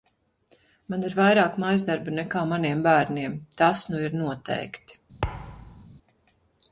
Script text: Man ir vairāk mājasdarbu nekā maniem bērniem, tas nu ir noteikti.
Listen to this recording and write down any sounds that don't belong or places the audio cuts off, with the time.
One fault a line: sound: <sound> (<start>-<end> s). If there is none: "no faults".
sound: thud (5.2-5.9 s)